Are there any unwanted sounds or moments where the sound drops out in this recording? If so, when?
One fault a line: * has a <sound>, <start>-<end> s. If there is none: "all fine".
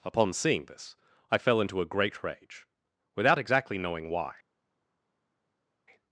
all fine